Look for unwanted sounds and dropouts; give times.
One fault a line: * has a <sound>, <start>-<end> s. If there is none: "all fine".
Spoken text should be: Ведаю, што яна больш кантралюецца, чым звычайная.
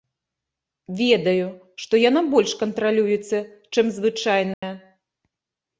* has a dropout, 4.5-4.6 s